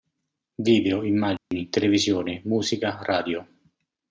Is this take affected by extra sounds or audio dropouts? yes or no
yes